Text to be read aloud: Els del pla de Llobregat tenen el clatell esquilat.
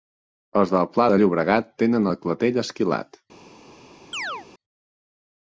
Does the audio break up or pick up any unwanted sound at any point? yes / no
yes